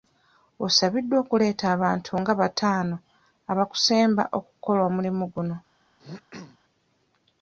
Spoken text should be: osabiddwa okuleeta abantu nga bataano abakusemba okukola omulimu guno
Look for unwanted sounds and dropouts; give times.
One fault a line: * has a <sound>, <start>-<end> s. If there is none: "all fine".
* has a throat clearing, 6.0-6.6 s